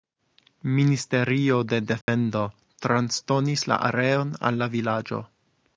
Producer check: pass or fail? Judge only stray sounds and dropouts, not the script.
fail